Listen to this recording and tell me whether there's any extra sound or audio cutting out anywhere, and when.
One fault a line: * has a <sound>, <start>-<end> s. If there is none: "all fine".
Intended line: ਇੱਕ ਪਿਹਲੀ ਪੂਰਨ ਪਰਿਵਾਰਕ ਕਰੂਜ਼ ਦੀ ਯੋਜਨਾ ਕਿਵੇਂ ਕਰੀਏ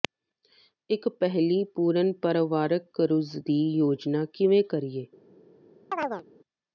* has a chirp, 5.9-6.2 s